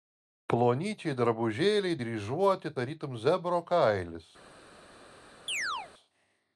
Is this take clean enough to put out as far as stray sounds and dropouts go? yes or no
no